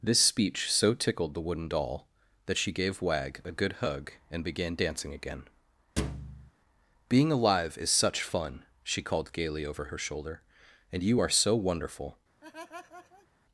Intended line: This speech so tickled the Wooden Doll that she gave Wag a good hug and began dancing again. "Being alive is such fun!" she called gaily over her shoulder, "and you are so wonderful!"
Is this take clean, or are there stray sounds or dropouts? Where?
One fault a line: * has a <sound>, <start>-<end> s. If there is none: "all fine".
* has a thud, 6.0-6.5 s
* has a laugh, 12.4-13.3 s